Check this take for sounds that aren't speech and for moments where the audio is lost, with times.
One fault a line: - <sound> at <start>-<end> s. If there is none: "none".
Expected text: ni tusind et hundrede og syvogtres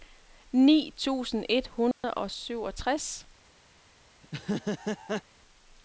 - dropout at 1.9-2.0 s
- laugh at 4.2-5.2 s